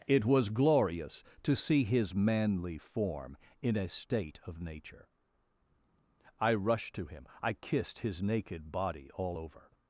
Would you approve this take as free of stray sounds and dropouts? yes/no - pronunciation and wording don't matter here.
yes